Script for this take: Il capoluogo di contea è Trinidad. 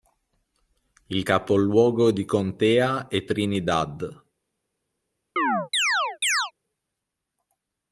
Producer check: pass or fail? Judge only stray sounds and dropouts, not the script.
fail